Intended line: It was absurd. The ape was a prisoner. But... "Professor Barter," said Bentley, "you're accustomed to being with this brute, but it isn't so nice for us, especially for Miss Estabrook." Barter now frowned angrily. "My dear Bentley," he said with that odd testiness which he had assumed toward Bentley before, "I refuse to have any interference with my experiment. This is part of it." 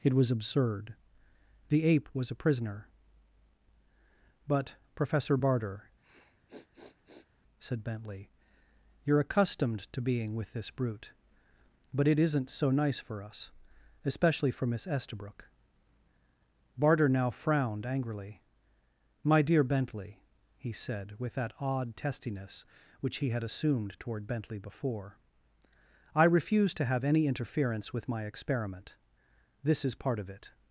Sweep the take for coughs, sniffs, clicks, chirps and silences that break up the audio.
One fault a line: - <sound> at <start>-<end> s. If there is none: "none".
- sniff at 6.0-7.3 s